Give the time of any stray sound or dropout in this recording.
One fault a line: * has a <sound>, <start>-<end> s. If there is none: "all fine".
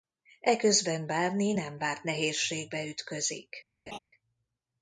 * has a laugh, 3.9-4.0 s